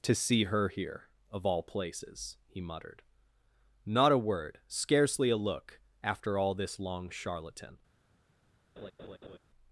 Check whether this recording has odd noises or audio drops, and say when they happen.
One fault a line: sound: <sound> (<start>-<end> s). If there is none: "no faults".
sound: laugh (8.8-9.4 s)